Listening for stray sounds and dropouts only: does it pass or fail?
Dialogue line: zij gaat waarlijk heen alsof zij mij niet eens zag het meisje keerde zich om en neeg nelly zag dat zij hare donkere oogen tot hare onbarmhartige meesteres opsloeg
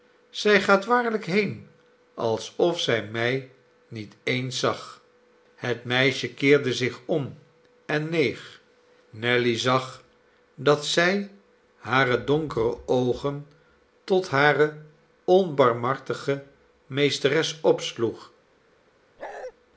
fail